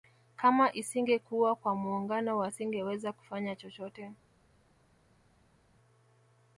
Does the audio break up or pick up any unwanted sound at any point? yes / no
no